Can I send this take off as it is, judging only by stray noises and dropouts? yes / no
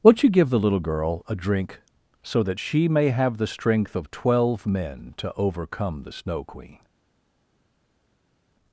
yes